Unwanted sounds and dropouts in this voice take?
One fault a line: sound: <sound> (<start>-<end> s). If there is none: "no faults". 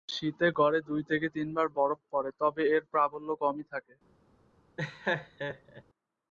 sound: laugh (4.8-5.8 s)